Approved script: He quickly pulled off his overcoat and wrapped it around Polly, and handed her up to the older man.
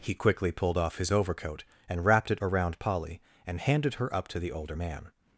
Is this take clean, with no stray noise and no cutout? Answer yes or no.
yes